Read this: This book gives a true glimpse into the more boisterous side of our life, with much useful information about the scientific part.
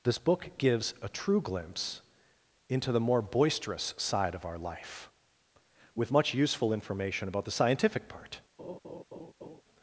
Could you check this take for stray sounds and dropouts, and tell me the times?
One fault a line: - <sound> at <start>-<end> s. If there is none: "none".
- laugh at 8.6-9.6 s